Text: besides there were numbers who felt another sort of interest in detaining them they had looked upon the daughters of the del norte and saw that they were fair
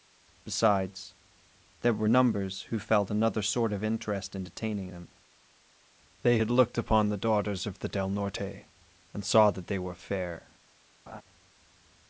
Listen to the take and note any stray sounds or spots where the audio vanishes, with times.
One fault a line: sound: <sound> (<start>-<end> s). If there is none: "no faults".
sound: laugh (11.1-11.2 s)